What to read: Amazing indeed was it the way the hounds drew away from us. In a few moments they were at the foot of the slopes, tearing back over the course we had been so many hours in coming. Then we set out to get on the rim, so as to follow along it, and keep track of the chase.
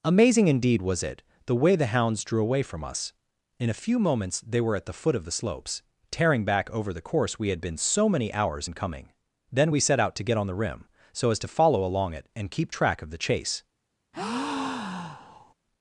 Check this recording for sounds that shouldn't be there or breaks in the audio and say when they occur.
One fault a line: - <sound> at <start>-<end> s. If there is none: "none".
- breath at 14.1-15.5 s